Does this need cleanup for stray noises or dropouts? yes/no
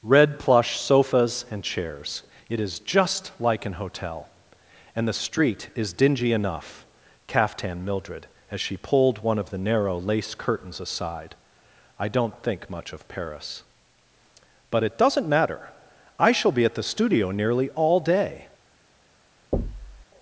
yes